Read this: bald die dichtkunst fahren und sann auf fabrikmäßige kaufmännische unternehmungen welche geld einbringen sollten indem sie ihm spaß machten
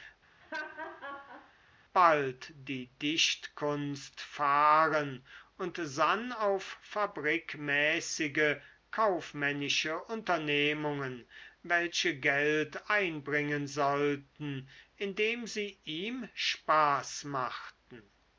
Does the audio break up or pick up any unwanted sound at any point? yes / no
yes